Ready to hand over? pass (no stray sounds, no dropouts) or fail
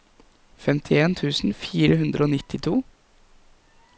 pass